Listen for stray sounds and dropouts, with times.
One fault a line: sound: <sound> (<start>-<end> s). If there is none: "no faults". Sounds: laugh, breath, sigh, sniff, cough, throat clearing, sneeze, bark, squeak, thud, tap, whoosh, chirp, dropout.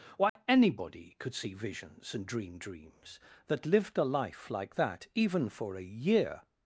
sound: dropout (0.3-0.4 s)